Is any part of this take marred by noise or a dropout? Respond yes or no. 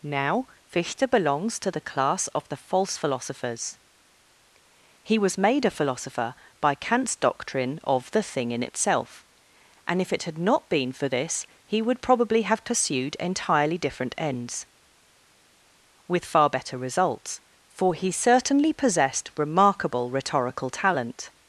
no